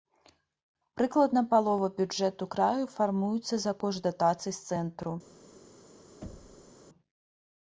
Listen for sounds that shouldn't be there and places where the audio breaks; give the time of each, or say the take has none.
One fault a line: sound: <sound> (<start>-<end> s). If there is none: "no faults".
sound: thud (6.2-6.7 s)